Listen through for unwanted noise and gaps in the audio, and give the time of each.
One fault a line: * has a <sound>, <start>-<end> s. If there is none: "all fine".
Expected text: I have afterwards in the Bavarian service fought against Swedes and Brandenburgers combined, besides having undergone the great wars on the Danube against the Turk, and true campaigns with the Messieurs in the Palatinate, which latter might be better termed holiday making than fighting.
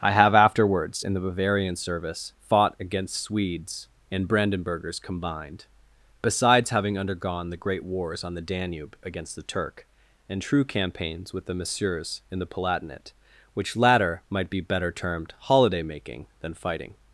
all fine